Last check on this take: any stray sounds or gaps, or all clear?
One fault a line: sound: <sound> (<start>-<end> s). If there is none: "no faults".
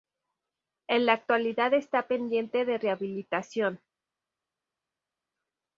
no faults